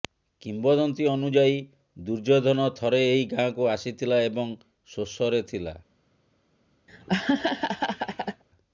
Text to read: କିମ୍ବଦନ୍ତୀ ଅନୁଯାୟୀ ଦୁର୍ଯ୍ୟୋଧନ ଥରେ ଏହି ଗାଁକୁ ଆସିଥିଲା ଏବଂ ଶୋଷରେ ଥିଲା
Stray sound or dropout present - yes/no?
yes